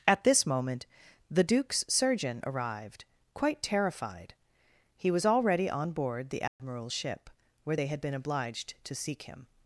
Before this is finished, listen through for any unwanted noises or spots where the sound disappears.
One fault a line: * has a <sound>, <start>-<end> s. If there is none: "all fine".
* has a dropout, 6.5-6.6 s